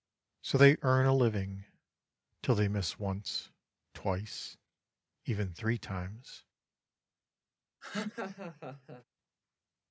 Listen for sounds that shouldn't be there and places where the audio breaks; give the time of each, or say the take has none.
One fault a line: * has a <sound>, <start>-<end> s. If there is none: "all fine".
* has a laugh, 7.8-9.0 s